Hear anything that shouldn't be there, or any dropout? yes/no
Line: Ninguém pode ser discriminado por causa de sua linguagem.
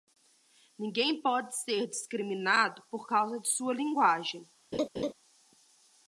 yes